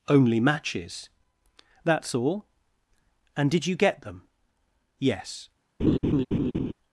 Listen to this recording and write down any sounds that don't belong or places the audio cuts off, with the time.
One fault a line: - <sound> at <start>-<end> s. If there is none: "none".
- laugh at 5.8-6.7 s